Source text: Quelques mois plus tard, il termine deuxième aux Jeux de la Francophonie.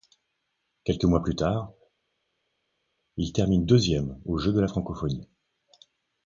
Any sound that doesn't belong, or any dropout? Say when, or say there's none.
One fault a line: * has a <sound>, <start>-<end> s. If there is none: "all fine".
all fine